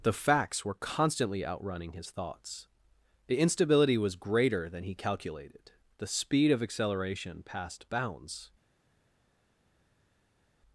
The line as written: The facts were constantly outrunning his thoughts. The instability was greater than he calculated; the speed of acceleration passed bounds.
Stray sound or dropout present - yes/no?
no